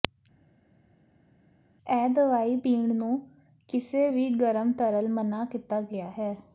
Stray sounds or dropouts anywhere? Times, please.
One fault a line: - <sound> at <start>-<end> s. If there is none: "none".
none